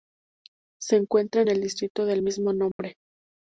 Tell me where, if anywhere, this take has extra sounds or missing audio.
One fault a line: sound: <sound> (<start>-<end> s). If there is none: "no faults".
sound: dropout (2.7-2.8 s)